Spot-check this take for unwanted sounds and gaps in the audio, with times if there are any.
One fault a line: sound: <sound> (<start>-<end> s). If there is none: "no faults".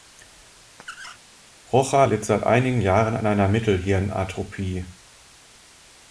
sound: squeak (0.8-1.2 s)